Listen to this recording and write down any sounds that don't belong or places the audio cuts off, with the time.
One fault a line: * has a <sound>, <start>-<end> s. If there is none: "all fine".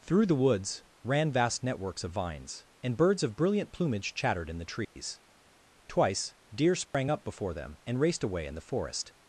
* has a dropout, 4.8-5.0 s
* has a dropout, 6.9-6.9 s